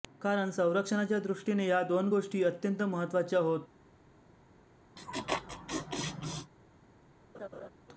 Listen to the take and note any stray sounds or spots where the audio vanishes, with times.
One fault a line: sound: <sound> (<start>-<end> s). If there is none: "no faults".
sound: laugh (5.0-6.5 s)
sound: laugh (7.3-7.7 s)